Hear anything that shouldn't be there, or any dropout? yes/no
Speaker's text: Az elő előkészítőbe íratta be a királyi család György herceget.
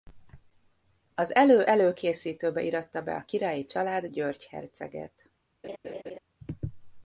yes